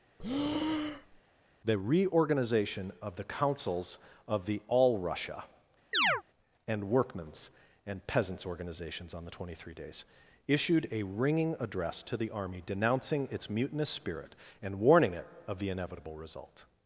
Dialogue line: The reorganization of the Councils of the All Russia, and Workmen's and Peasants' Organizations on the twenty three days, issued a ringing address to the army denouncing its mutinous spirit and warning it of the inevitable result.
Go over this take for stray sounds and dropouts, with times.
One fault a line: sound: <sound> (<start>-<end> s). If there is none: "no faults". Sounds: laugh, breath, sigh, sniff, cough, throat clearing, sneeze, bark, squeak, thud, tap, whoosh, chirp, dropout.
sound: breath (0.2-1.2 s)
sound: chirp (5.9-6.2 s)